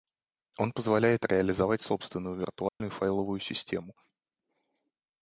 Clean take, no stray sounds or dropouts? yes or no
no